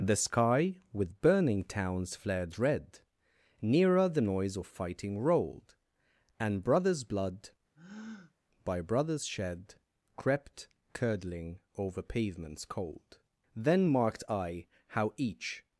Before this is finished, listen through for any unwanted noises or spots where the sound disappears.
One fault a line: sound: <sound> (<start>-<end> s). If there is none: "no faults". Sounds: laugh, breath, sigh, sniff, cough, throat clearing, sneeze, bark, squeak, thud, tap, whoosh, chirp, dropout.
sound: breath (7.7-8.3 s)